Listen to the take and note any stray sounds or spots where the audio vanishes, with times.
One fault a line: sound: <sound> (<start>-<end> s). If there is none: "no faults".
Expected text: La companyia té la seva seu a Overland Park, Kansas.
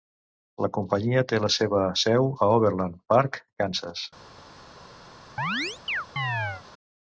sound: chirp (5.4-6.6 s)